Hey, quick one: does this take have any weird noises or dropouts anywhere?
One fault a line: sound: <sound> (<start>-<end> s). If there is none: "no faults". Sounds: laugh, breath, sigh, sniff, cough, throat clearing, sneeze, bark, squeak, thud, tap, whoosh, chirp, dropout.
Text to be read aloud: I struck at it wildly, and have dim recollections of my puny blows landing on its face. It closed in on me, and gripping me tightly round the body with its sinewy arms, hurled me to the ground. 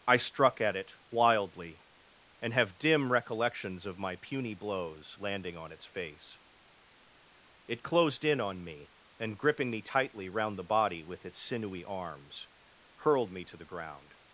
no faults